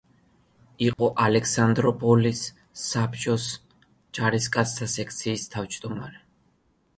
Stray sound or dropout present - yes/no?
yes